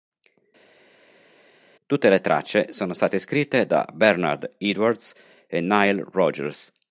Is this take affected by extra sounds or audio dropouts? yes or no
no